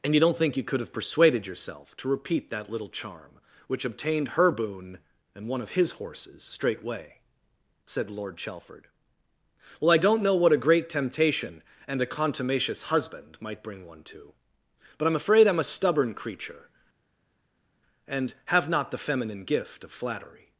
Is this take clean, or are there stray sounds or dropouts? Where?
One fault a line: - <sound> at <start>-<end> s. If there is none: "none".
none